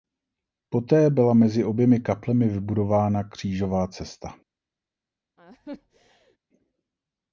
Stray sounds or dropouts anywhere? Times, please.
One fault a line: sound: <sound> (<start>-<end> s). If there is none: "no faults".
sound: laugh (5.4-6.4 s)